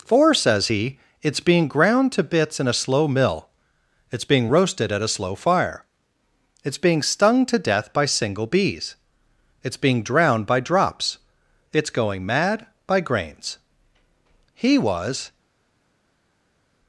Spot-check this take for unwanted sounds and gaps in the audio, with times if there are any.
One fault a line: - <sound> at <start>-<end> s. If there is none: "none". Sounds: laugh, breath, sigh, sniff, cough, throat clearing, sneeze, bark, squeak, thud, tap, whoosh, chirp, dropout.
none